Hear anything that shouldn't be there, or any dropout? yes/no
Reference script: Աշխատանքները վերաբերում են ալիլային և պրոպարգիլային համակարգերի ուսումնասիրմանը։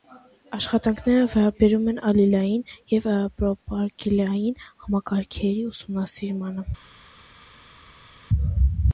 no